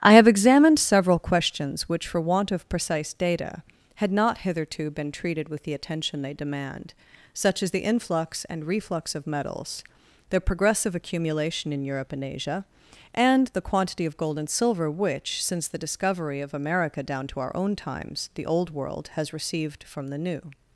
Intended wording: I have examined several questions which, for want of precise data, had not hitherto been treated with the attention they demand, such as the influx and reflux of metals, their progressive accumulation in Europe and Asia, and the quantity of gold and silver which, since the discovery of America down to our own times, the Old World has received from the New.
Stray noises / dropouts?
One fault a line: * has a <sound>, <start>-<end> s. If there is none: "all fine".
all fine